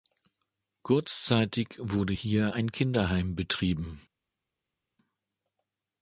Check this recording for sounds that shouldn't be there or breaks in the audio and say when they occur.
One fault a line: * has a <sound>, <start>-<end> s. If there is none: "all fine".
all fine